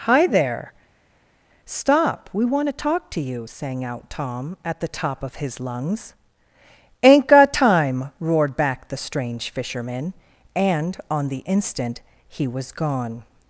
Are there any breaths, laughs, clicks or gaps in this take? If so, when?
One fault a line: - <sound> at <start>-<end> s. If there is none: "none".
none